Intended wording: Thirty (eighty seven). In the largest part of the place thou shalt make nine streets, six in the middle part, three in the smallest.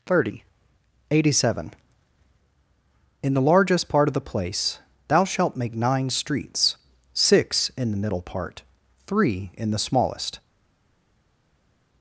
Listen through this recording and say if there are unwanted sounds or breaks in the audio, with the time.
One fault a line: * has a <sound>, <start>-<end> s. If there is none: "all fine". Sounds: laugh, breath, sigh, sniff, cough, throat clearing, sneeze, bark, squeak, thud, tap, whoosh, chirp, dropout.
all fine